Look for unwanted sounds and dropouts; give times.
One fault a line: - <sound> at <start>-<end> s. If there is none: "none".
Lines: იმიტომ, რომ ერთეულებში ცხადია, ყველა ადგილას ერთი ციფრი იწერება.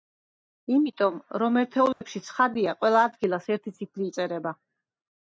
- dropout at 1.9-2.0 s